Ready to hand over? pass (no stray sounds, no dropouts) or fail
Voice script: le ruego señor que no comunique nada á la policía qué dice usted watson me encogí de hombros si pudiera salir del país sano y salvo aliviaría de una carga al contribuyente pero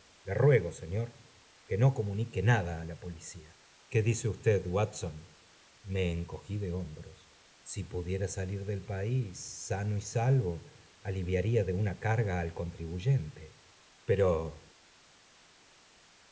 pass